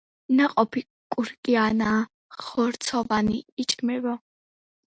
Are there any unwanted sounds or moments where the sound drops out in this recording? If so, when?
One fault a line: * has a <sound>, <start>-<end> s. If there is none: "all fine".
all fine